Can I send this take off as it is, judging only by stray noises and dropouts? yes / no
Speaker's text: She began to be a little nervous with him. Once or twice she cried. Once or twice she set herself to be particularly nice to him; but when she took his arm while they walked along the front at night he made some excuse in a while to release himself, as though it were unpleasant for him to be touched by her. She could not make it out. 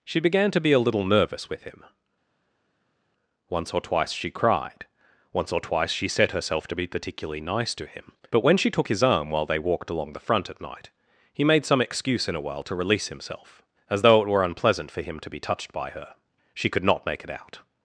yes